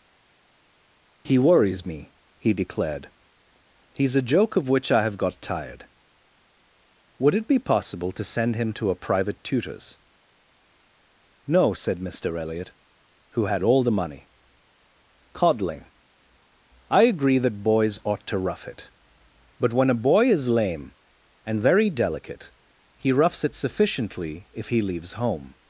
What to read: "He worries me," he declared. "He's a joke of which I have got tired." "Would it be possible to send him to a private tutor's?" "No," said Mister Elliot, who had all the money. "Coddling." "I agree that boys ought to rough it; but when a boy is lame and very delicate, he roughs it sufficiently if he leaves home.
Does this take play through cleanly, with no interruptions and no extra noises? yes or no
yes